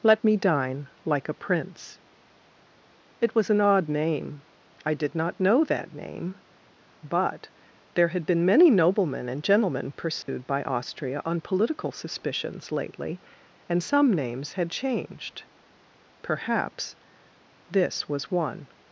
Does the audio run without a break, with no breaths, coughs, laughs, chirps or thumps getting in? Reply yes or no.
no